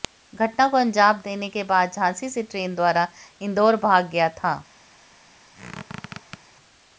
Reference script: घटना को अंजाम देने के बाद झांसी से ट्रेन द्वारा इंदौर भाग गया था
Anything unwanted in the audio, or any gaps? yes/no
yes